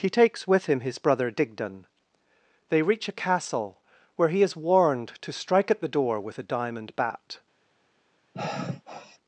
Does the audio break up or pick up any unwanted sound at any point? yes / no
yes